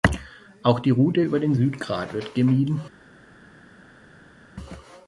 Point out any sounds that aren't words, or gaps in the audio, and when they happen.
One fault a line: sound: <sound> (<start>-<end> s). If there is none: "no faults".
no faults